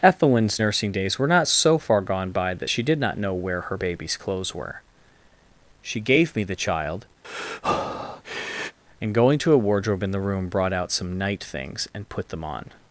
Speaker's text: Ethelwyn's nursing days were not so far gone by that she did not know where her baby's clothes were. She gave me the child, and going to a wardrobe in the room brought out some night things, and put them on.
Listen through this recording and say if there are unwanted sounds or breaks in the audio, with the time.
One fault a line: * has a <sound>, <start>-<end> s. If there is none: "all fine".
* has a breath, 7.2-8.8 s